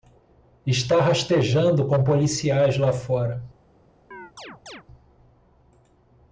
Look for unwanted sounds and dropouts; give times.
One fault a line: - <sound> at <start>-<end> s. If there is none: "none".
- chirp at 4.1-4.8 s